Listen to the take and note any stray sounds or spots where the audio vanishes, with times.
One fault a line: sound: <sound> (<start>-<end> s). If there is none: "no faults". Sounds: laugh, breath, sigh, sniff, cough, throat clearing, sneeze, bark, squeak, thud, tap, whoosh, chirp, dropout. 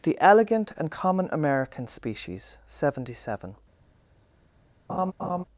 sound: laugh (4.9-5.4 s)